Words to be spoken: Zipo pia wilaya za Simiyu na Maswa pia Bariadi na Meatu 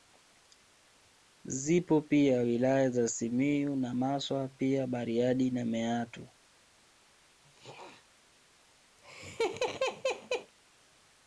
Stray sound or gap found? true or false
true